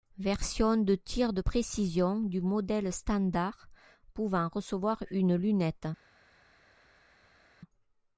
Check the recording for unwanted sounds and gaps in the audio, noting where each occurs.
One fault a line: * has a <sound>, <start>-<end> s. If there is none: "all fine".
all fine